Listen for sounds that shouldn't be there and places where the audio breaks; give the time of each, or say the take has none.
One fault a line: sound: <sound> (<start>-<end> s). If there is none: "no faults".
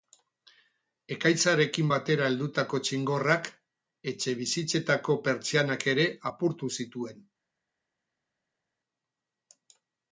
no faults